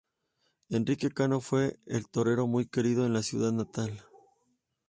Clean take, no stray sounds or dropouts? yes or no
yes